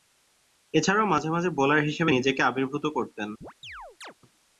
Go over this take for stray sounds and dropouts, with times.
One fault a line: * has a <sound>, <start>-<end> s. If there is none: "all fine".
* has a chirp, 3.4-4.1 s